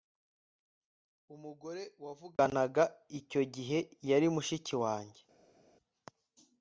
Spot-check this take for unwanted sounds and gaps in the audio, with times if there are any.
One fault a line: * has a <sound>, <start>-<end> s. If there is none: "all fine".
all fine